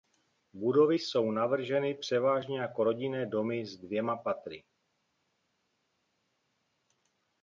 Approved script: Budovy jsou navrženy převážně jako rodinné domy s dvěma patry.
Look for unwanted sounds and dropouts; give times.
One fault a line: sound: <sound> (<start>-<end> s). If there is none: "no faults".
no faults